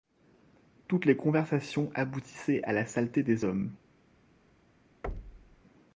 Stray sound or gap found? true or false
true